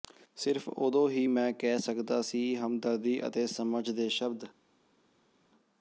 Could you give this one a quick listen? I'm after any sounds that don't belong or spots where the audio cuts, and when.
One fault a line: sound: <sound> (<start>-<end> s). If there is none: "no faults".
no faults